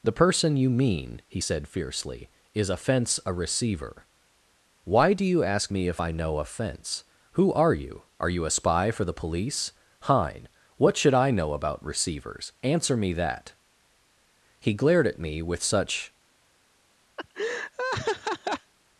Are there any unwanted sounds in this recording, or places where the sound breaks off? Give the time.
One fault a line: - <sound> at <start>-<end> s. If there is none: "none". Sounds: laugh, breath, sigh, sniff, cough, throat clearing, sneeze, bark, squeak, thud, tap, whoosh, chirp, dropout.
- laugh at 17.2-18.7 s